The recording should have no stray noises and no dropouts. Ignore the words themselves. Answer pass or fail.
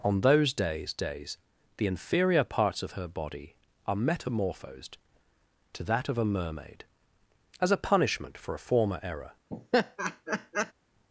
fail